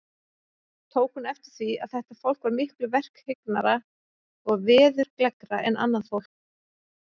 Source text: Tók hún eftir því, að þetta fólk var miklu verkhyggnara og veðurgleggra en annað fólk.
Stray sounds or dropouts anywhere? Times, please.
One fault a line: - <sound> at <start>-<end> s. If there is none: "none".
none